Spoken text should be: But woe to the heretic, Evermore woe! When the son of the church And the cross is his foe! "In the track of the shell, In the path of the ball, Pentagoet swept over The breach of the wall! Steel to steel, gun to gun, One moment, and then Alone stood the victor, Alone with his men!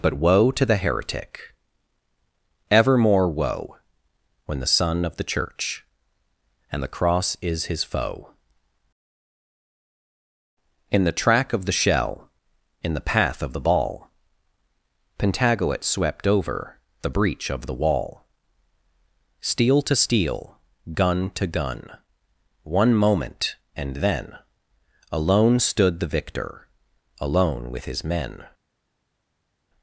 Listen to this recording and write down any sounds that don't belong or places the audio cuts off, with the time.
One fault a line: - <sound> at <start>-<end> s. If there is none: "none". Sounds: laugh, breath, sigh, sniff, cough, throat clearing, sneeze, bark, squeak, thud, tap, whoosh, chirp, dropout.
none